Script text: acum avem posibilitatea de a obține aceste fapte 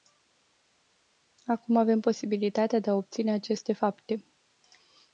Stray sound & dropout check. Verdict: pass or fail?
pass